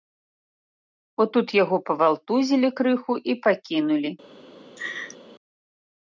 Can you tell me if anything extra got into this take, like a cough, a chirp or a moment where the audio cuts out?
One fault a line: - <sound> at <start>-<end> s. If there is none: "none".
- laugh at 4.8-5.2 s